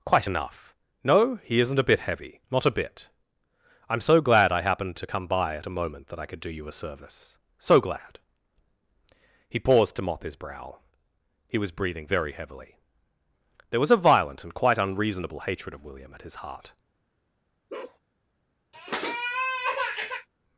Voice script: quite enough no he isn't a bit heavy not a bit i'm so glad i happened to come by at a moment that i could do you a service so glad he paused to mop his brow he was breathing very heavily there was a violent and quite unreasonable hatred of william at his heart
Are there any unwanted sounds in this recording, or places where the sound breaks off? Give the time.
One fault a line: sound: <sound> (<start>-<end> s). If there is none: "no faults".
sound: bark (17.7-18.0 s)
sound: sniff (18.7-20.3 s)